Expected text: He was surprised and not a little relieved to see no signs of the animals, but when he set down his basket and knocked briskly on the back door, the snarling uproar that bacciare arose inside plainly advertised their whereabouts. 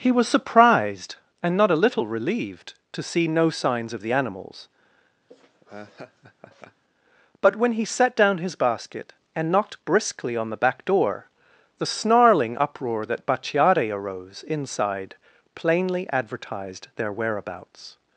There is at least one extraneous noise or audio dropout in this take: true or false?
true